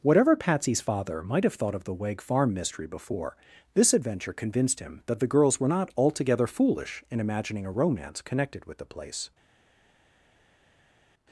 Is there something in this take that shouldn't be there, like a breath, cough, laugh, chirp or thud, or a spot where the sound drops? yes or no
no